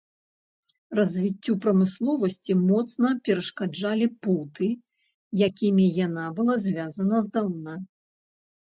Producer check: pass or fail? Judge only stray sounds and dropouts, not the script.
pass